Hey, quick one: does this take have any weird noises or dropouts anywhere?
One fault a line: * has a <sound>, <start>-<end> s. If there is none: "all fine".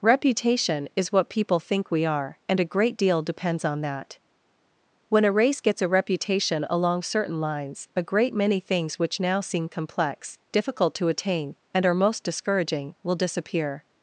all fine